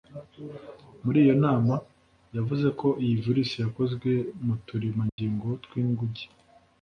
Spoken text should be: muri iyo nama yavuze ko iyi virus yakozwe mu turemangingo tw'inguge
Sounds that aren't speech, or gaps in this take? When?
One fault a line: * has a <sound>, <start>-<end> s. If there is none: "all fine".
* has a dropout, 5.1-5.2 s